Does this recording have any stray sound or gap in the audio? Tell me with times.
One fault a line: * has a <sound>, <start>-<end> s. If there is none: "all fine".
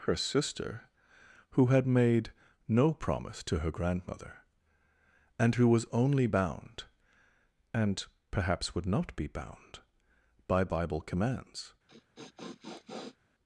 * has a sniff, 11.9-13.2 s